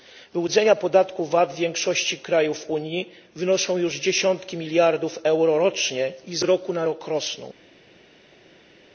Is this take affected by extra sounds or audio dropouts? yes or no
no